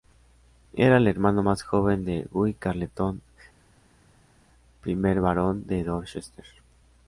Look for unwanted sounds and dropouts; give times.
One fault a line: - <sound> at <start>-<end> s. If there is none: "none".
none